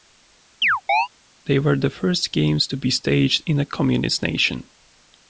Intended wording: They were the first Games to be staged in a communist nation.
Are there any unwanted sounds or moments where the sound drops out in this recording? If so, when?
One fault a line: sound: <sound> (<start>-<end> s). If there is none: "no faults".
sound: chirp (0.6-1.1 s)